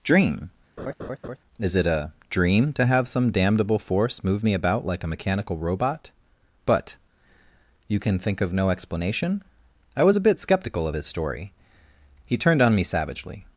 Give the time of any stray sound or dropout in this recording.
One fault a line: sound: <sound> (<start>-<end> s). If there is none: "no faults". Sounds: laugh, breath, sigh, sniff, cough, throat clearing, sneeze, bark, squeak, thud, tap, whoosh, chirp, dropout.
sound: laugh (0.8-1.4 s)